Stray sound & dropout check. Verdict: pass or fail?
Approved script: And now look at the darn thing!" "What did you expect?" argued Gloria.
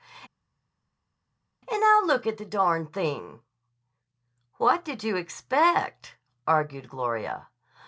pass